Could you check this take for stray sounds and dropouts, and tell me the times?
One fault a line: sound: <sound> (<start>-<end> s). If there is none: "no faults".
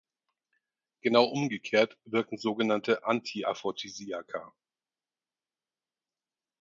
no faults